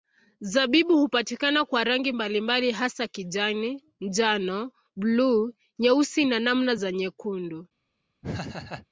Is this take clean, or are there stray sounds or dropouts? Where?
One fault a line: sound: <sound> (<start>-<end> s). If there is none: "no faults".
sound: laugh (8.2-8.9 s)